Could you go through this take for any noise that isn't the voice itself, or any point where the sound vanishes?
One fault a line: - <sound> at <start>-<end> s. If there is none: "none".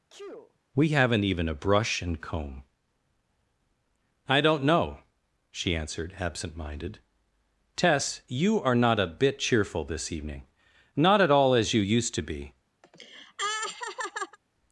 - sneeze at 0.1-0.6 s
- laugh at 12.8-14.4 s